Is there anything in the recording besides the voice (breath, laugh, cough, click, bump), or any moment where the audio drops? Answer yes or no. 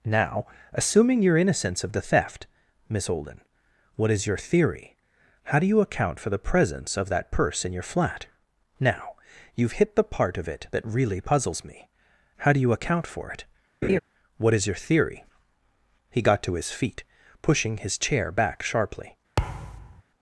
yes